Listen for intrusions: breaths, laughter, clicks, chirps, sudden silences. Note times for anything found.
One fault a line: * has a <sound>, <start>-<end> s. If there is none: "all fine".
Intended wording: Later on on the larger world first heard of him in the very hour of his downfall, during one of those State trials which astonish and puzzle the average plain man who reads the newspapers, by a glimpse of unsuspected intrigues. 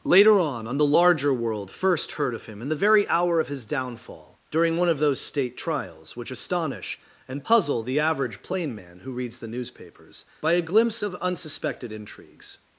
all fine